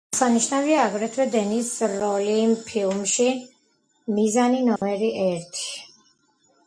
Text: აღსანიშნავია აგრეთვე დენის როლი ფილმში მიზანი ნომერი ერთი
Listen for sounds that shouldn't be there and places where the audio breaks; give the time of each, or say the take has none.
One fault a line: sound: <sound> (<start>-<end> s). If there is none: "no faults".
sound: dropout (4.8-4.8 s)